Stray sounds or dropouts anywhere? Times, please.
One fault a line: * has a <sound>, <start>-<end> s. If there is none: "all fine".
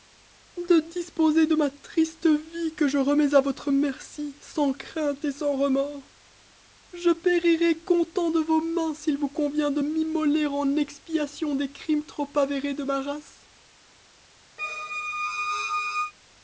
* has a squeak, 14.6-16.1 s